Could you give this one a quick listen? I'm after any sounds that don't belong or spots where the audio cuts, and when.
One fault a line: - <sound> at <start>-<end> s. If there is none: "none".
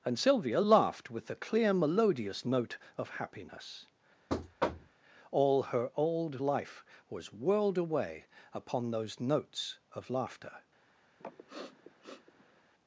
- thud at 4.3-5.0 s
- sniff at 11.2-12.6 s